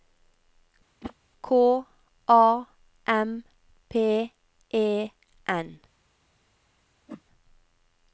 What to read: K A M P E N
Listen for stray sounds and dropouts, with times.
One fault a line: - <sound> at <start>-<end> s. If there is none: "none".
- whoosh at 1.0-1.1 s
- whoosh at 7.1-7.2 s